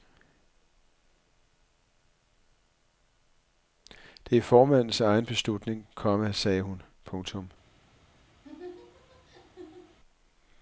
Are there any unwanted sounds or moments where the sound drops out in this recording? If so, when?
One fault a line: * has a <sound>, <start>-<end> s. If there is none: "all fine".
* has a laugh, 8.4-10.0 s